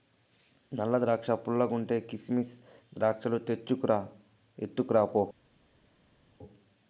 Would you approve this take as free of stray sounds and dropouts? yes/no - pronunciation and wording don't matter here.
yes